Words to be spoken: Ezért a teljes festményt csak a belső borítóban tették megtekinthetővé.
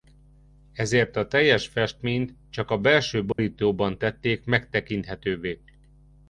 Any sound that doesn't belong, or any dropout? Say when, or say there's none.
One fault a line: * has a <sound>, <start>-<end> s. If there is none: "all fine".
* has a dropout, 3.3-3.4 s